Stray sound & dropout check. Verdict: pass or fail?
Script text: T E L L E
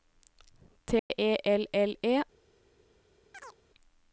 fail